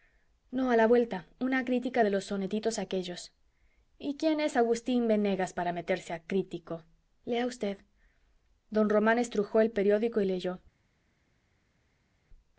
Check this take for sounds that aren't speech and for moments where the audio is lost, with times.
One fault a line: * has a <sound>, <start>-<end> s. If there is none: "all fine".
all fine